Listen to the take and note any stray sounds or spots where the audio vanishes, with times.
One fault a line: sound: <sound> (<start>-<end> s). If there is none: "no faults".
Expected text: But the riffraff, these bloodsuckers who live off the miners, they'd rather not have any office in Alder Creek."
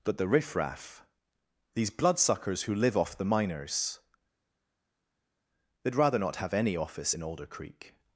no faults